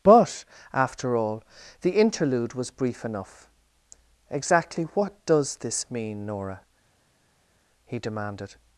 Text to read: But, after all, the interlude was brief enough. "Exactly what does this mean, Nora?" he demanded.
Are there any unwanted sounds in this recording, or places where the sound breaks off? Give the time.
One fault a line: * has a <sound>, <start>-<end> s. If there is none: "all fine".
all fine